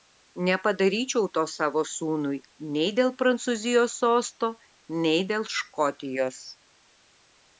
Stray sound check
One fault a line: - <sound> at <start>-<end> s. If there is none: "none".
none